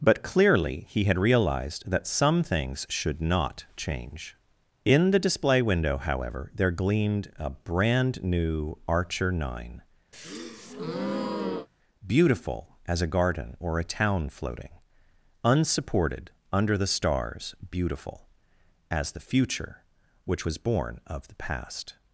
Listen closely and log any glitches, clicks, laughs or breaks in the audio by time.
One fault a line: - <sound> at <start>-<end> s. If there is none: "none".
- breath at 10.1-11.7 s